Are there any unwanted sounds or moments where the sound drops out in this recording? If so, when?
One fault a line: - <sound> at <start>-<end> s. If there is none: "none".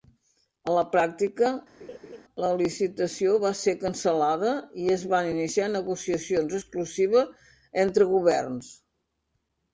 - laugh at 1.8-2.2 s